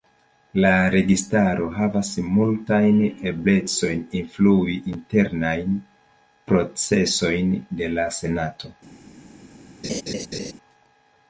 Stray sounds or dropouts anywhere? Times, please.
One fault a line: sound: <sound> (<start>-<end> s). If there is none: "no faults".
sound: laugh (9.8-10.5 s)